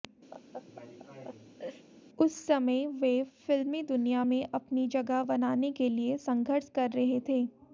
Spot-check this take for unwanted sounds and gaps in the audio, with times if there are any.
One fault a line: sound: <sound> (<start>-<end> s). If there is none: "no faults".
sound: laugh (0.3-1.9 s)